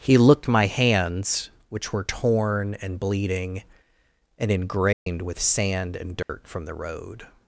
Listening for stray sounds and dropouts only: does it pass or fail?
fail